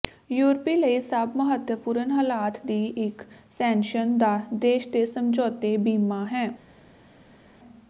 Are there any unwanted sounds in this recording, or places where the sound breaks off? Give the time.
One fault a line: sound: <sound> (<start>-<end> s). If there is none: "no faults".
no faults